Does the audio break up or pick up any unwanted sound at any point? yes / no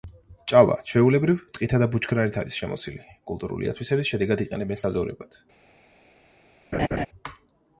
yes